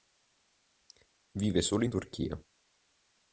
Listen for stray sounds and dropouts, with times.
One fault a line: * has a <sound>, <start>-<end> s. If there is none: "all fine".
all fine